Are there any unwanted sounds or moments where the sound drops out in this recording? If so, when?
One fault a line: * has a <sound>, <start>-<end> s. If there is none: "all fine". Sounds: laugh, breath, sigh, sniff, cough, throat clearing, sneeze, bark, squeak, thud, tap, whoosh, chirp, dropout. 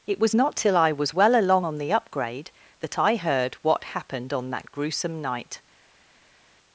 all fine